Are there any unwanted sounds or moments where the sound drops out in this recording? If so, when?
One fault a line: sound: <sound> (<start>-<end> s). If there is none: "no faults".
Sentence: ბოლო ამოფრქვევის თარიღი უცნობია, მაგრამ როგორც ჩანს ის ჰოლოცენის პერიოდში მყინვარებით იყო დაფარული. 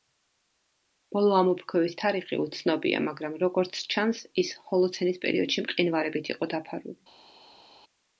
no faults